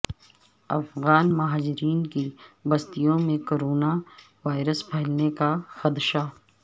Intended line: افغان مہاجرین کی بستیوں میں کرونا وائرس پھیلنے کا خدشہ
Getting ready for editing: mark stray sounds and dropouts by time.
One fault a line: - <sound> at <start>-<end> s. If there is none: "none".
none